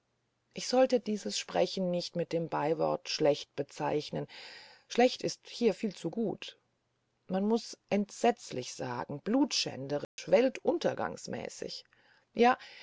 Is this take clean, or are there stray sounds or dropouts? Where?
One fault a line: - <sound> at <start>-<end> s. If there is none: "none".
- dropout at 10.0-10.2 s